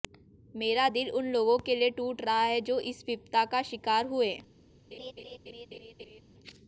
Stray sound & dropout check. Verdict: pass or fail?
fail